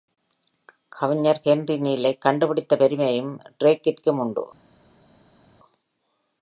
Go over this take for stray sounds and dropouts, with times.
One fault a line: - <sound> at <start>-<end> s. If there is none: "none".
none